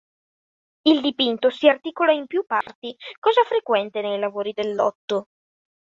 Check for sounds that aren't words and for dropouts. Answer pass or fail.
fail